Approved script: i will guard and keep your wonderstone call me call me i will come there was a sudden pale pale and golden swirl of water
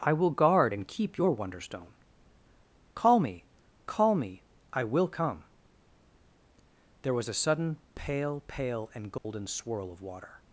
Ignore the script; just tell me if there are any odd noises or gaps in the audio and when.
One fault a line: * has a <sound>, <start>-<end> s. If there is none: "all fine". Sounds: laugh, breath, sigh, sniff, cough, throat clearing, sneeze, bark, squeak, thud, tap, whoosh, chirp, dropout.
* has a dropout, 9.2-9.2 s